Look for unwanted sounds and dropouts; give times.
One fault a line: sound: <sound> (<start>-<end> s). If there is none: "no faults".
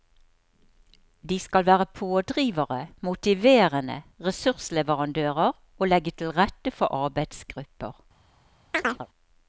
sound: chirp (8.7-9.1 s)